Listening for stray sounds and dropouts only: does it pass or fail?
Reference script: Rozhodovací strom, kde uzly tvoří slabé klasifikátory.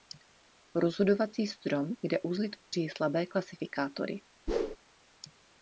fail